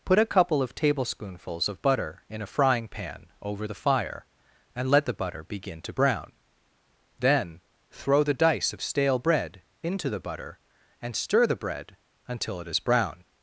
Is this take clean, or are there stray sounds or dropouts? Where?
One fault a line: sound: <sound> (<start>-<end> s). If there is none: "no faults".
no faults